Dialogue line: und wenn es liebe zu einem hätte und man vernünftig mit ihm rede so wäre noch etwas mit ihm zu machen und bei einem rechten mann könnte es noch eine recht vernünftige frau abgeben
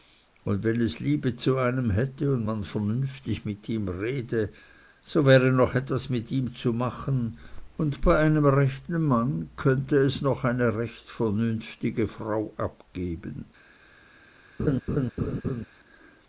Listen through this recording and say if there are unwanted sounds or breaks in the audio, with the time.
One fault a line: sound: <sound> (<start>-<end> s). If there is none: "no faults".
sound: laugh (14.6-15.7 s)